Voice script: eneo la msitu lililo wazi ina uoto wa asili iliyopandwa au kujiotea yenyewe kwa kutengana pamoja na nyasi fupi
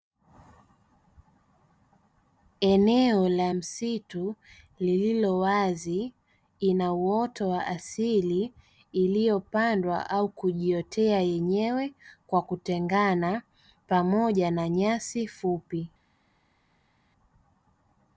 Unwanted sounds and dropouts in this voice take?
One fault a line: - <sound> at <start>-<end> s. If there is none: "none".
none